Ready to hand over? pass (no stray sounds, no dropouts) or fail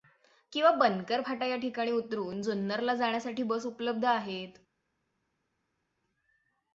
pass